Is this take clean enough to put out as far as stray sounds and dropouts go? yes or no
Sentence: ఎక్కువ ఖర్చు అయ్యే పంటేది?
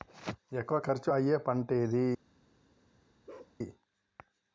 no